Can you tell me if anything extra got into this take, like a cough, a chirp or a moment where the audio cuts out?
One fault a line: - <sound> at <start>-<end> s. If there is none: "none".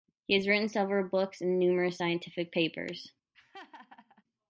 - laugh at 3.3-4.2 s